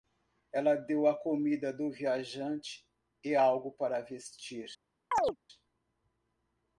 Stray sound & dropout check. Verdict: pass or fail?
fail